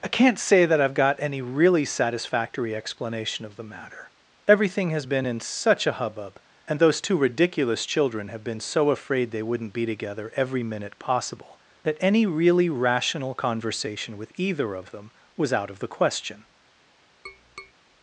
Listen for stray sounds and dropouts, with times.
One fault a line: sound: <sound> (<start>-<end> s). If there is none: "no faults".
sound: tap (17.3-17.7 s)